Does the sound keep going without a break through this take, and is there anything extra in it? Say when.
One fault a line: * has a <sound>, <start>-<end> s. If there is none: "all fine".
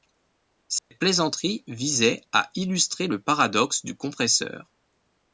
* has a dropout, 0.8-0.9 s